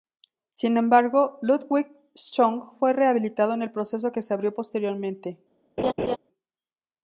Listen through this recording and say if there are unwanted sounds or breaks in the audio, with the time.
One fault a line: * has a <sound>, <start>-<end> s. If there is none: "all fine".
* has a laugh, 5.8-6.2 s